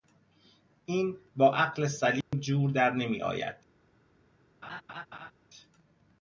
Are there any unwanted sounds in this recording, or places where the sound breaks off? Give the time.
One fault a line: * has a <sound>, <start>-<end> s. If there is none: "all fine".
* has a dropout, 2.2-2.3 s
* has a laugh, 4.6-5.3 s